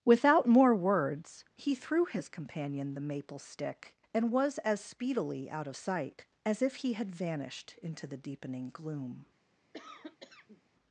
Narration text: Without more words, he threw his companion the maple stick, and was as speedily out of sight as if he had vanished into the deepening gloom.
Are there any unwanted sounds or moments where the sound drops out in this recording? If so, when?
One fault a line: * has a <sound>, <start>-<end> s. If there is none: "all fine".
* has a cough, 9.7-10.6 s